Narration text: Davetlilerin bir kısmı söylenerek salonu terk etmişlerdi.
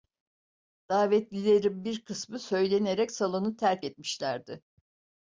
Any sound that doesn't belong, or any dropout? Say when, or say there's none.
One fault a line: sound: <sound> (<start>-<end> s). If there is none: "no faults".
no faults